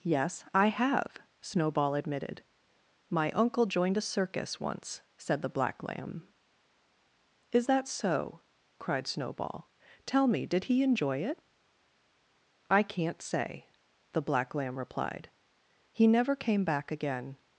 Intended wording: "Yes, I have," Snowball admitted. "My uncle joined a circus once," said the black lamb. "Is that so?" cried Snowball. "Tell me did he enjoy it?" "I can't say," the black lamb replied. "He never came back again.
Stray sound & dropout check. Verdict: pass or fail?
pass